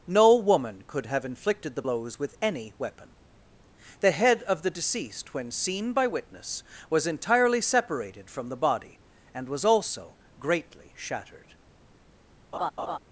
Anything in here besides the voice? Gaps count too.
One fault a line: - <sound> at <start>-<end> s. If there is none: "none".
- laugh at 12.5-13.0 s